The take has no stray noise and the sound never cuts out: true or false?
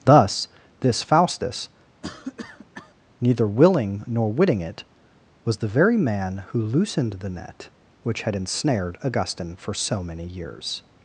false